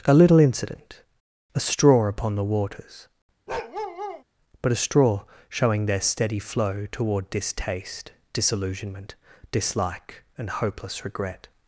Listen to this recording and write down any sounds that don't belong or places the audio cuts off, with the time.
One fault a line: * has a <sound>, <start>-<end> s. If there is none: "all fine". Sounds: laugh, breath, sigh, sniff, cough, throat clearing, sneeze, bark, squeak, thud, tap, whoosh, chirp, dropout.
* has a bark, 3.5-4.2 s